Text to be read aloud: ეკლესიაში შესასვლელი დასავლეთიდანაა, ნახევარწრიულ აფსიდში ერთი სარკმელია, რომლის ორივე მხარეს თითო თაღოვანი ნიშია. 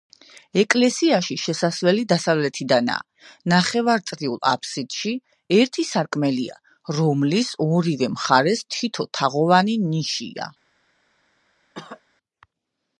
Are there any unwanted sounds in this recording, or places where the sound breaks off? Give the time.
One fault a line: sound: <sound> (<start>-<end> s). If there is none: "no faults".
sound: cough (11.7-12.0 s)